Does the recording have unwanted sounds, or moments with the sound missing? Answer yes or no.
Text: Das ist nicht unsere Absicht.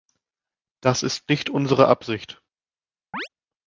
yes